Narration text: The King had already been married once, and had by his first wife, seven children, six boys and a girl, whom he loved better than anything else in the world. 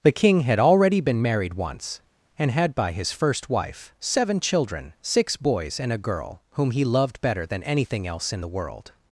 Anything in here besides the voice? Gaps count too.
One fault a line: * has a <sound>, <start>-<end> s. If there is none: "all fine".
all fine